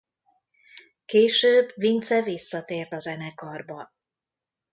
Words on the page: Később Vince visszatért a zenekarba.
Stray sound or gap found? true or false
false